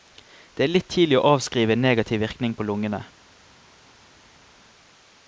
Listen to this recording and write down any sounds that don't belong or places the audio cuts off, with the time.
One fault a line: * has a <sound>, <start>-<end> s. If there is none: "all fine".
all fine